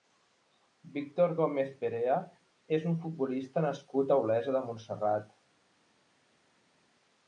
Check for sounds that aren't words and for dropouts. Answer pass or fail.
pass